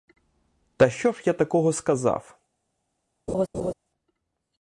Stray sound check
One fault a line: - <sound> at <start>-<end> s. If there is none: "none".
- laugh at 3.3-3.7 s